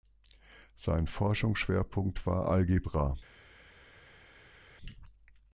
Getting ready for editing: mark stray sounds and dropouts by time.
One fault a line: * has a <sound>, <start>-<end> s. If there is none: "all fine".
all fine